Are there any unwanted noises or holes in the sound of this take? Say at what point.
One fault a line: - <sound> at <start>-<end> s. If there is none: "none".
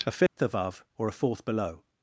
- dropout at 0.3-0.4 s